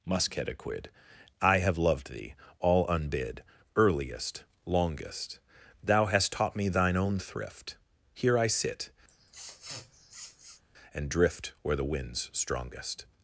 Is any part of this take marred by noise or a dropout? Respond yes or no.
yes